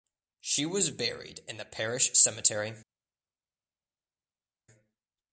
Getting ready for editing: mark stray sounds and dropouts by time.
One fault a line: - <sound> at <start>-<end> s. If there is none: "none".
none